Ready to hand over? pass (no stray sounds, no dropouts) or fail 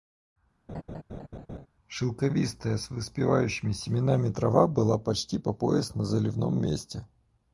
fail